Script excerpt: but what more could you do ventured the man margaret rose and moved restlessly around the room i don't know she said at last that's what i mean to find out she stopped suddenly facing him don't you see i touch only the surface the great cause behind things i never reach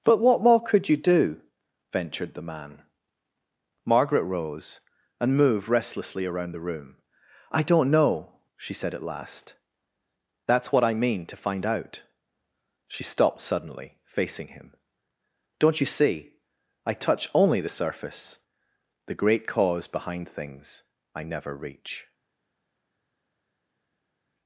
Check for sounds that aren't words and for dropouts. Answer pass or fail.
pass